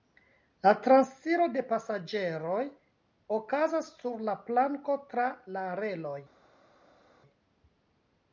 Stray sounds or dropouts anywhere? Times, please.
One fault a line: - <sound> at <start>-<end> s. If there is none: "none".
none